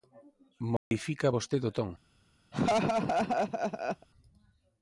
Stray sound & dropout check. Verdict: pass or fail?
fail